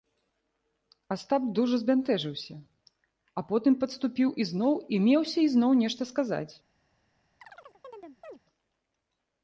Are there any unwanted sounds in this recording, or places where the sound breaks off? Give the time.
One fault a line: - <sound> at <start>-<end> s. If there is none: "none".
- chirp at 7.4-8.4 s